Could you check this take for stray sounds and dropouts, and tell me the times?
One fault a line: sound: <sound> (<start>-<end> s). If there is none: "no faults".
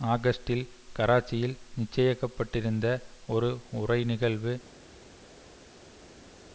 no faults